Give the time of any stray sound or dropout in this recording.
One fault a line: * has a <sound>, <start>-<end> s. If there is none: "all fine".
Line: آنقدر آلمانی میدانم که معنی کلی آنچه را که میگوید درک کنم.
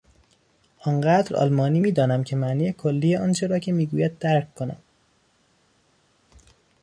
all fine